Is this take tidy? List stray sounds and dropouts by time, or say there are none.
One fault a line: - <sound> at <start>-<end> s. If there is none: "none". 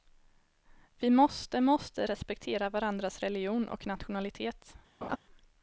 - laugh at 5.0-5.2 s